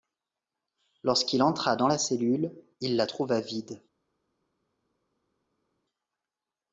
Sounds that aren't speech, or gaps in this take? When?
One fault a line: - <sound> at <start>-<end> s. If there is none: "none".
none